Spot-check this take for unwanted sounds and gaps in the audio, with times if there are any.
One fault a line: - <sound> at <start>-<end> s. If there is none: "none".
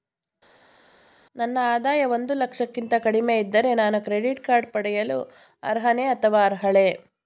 none